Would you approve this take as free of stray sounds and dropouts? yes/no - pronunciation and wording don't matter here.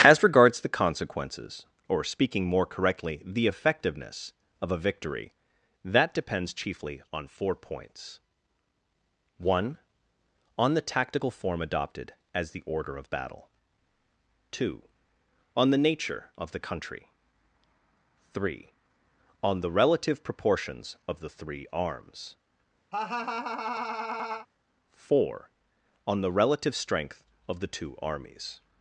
no